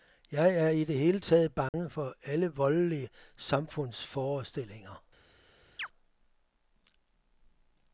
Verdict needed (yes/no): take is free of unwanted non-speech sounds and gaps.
no